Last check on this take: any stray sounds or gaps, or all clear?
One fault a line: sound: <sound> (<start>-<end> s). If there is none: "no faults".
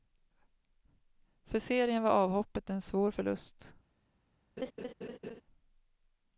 sound: laugh (4.6-5.4 s)